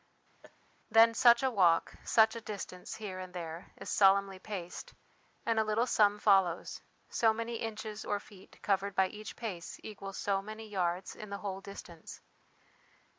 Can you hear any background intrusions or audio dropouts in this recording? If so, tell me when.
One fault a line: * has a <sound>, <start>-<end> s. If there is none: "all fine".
* has a laugh, 0.4-0.6 s